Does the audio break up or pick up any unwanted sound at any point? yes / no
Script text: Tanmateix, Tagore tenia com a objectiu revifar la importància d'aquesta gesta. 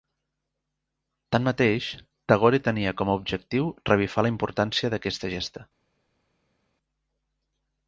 no